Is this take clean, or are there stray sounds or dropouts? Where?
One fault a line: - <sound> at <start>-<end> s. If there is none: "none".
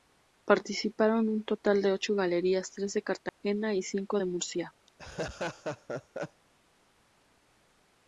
- dropout at 3.3-3.4 s
- laugh at 4.9-6.4 s